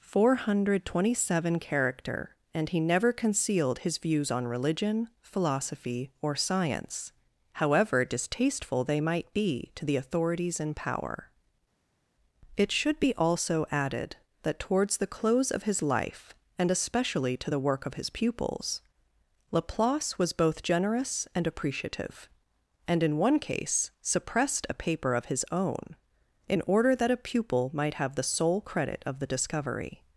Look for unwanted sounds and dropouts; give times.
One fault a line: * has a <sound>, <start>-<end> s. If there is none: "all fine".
all fine